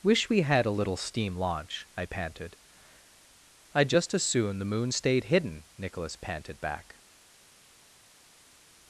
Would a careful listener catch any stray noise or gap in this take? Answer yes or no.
no